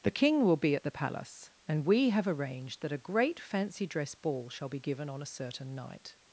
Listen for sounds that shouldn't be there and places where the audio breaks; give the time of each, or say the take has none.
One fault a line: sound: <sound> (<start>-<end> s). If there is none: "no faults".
no faults